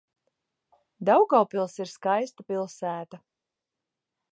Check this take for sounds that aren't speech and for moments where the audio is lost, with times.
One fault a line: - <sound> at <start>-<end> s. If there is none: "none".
none